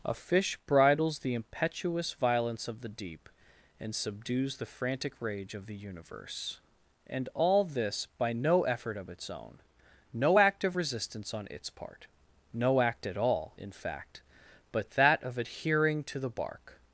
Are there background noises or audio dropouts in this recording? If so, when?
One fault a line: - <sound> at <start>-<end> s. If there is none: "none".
none